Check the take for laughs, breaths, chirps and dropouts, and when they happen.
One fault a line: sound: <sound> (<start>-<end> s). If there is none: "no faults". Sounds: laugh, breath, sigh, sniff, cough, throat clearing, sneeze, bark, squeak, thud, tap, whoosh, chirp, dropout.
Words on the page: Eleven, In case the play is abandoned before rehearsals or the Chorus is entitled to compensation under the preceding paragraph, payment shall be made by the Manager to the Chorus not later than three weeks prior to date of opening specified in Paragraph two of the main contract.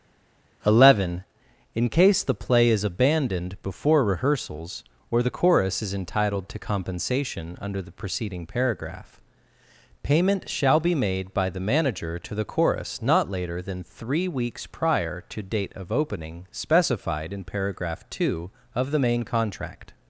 no faults